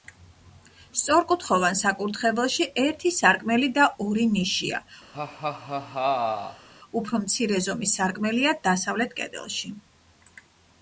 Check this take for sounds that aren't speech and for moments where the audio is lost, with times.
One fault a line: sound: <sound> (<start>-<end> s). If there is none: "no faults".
sound: laugh (5.1-6.7 s)